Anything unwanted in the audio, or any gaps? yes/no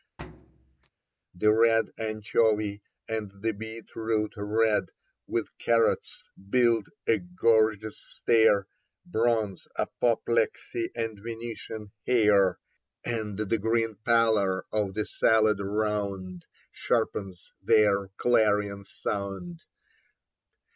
yes